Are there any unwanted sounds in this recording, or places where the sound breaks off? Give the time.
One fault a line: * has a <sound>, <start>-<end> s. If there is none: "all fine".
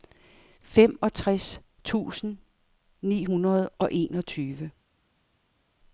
all fine